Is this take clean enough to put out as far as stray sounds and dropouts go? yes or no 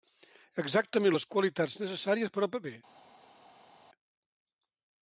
yes